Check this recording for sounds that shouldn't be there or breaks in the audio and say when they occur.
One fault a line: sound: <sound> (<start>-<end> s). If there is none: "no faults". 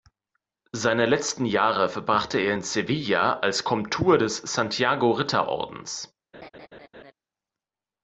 sound: laugh (6.3-7.1 s)